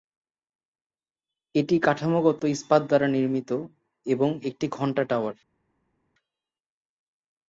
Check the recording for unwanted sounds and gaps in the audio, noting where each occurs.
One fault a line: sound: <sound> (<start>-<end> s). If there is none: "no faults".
no faults